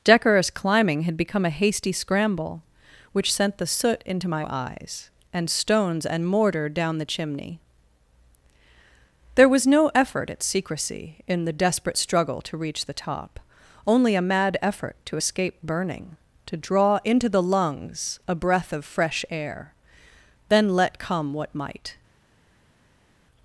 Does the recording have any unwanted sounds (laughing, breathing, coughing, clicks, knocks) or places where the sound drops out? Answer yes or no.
no